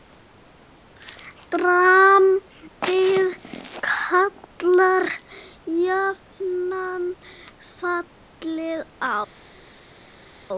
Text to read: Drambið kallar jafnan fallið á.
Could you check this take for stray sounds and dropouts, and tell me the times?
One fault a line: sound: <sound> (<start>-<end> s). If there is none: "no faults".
no faults